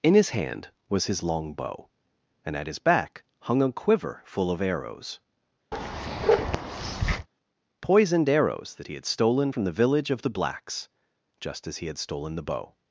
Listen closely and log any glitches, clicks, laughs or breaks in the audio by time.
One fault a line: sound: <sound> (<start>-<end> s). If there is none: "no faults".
sound: bark (5.7-7.3 s)